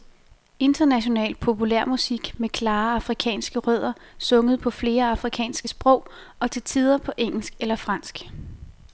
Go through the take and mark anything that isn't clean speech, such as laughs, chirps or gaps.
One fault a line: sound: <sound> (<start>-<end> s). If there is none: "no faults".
no faults